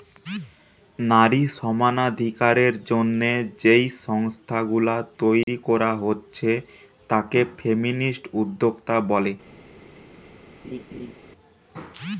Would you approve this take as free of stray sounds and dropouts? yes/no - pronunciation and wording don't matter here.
no